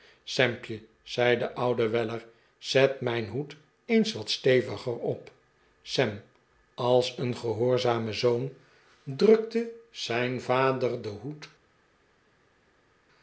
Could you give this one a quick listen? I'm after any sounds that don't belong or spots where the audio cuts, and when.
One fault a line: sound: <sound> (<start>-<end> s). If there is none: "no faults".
no faults